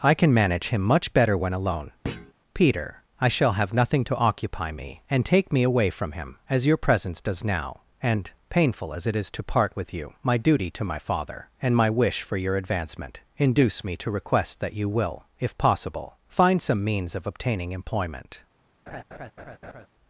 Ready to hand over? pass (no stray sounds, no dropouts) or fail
fail